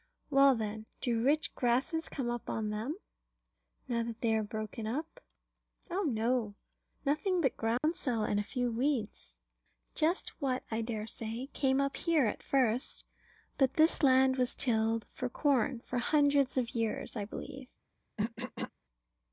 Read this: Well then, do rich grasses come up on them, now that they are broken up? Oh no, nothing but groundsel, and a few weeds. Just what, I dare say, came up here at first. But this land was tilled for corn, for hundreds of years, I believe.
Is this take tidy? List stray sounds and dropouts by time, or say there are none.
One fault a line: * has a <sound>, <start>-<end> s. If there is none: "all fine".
* has a dropout, 7.8-7.8 s
* has a throat clearing, 18.2-18.7 s